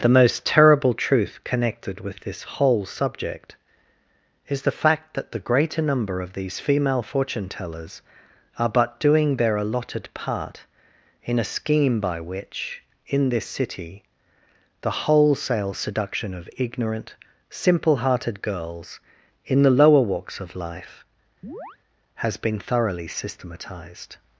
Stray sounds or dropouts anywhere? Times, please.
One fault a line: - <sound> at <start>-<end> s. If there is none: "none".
- chirp at 21.4-21.8 s